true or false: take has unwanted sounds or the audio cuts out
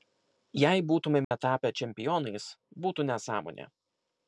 true